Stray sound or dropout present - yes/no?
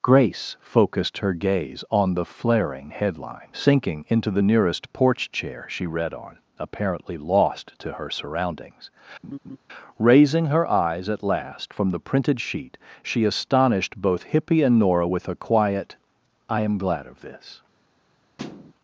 yes